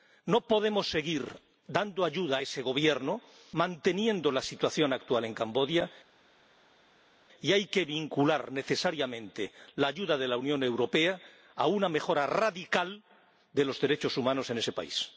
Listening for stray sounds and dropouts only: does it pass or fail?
pass